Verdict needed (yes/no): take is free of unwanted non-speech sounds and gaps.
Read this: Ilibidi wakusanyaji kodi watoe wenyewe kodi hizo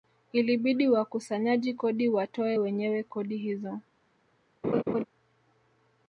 no